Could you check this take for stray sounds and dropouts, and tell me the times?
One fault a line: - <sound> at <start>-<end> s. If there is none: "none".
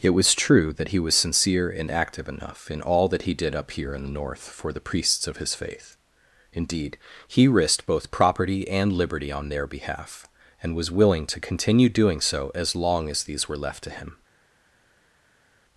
none